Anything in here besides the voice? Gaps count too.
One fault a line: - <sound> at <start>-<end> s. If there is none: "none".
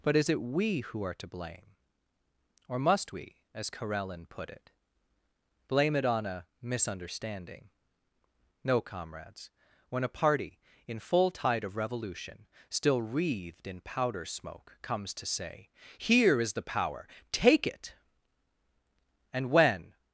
none